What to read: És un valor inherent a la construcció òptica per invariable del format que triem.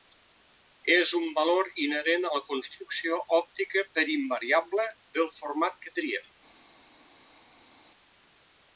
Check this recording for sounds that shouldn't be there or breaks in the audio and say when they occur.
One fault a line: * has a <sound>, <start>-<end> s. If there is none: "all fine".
all fine